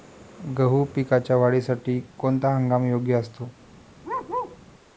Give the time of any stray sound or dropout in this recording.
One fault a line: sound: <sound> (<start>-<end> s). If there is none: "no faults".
sound: bark (4.0-4.6 s)